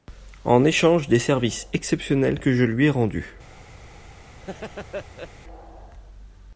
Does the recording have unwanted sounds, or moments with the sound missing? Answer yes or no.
yes